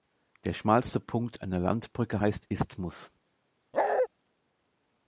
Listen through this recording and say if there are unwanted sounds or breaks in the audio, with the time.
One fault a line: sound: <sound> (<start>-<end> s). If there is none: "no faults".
sound: bark (3.7-4.1 s)